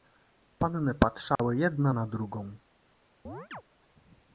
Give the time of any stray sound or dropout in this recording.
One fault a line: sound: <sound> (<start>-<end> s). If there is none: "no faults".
sound: dropout (1.4-1.4 s)
sound: chirp (3.2-3.6 s)